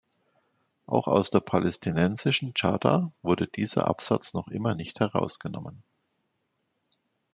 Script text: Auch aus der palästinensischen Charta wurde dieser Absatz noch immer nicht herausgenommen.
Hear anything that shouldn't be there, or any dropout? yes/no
no